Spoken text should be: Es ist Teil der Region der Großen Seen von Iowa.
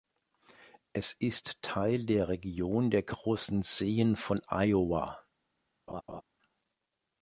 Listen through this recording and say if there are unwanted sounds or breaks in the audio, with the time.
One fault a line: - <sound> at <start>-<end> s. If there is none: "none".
- laugh at 5.9-6.2 s